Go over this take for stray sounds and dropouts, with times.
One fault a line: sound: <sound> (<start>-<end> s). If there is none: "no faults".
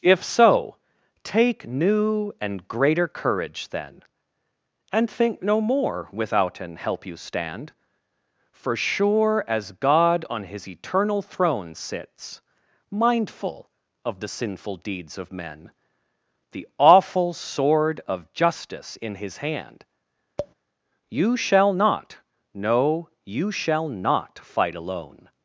sound: tap (20.4-20.5 s)